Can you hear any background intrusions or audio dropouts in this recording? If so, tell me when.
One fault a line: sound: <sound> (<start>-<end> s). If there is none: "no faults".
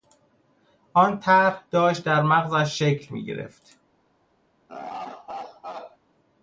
sound: laugh (4.7-6.0 s)